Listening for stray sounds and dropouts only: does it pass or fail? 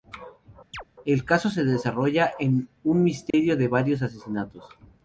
fail